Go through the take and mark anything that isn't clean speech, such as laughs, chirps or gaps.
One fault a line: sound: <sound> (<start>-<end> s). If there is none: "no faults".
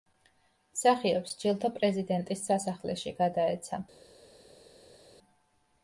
no faults